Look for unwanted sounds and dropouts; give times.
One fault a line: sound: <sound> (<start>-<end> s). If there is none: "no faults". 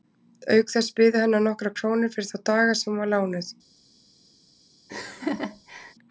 sound: laugh (4.9-5.9 s)